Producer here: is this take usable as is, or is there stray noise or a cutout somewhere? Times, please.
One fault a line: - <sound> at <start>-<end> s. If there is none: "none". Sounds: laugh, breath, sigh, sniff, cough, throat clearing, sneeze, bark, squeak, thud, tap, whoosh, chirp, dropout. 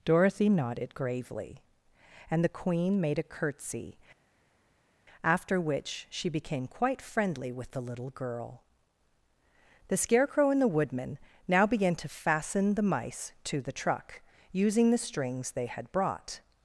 none